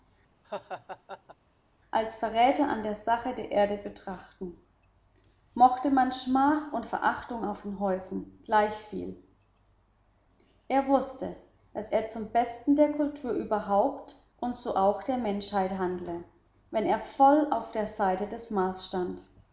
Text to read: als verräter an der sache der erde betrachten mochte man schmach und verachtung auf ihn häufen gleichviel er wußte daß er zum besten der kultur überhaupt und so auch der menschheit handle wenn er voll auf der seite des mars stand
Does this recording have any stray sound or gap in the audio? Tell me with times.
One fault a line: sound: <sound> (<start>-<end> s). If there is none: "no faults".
sound: laugh (0.4-1.4 s)